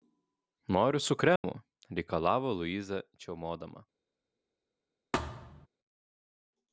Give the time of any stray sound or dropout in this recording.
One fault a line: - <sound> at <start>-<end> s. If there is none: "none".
- dropout at 1.4-1.4 s
- thud at 5.1-5.7 s